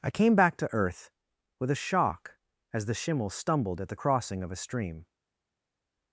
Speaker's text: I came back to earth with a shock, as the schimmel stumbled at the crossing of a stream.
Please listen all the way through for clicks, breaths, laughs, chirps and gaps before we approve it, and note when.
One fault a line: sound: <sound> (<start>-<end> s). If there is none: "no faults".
no faults